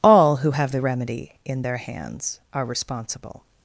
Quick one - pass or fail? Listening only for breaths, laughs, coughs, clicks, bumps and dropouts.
pass